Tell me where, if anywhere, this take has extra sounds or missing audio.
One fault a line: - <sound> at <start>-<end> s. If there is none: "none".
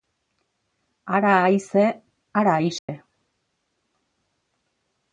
- dropout at 2.8-2.9 s